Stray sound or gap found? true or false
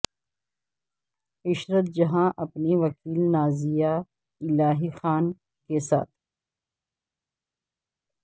false